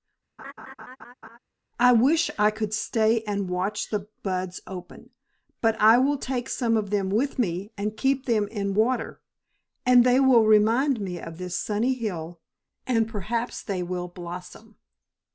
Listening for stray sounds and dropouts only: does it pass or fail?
fail